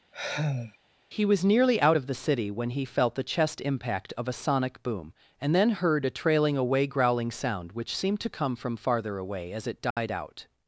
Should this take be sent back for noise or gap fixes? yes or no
yes